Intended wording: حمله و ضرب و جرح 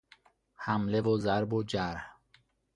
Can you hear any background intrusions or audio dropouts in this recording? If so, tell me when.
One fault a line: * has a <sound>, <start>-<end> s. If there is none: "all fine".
all fine